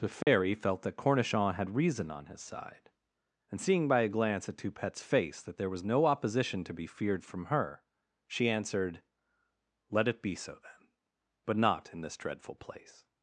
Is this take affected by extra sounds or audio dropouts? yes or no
yes